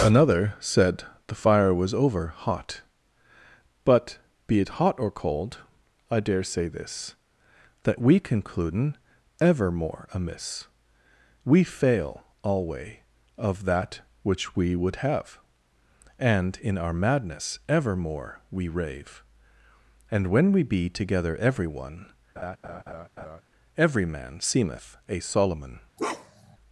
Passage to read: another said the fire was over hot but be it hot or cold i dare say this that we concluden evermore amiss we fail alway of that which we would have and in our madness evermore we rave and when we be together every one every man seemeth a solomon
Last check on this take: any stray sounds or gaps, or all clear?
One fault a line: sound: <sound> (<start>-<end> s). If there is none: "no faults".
sound: laugh (22.4-23.4 s)
sound: bark (26.0-26.6 s)